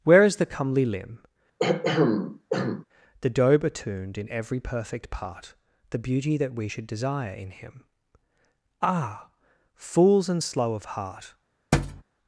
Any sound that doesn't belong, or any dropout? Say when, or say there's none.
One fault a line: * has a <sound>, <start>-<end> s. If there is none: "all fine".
* has a throat clearing, 1.6-2.8 s
* has a thud, 11.7-12.0 s